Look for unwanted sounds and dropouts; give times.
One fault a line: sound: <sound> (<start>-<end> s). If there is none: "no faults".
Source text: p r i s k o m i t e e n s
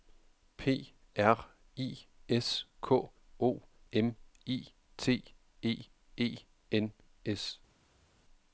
no faults